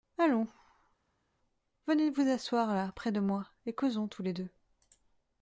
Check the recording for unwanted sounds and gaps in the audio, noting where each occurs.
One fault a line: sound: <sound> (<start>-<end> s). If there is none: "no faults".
no faults